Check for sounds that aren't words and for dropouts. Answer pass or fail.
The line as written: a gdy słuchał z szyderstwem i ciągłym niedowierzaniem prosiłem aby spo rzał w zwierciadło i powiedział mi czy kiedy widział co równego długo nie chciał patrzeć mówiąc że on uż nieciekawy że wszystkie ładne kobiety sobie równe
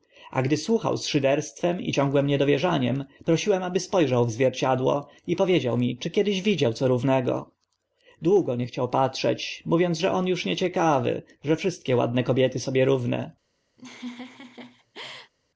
fail